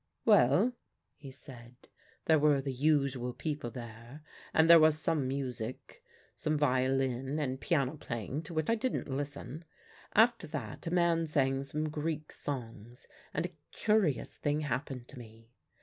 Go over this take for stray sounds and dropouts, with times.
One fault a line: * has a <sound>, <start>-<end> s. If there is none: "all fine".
all fine